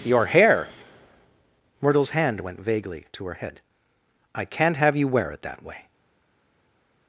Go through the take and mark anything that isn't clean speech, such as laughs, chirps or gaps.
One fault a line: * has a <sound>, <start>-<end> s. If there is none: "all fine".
all fine